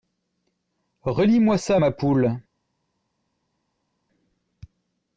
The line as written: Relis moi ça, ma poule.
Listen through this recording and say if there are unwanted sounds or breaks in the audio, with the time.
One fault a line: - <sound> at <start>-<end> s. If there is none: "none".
none